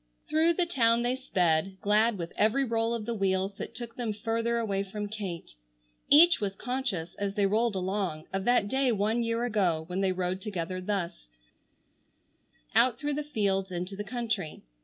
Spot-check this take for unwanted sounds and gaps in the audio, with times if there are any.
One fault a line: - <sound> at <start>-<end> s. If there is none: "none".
none